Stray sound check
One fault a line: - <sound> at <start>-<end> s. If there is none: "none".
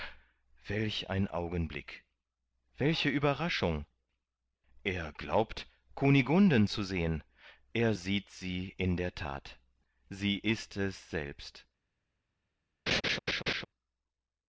- laugh at 12.9-13.6 s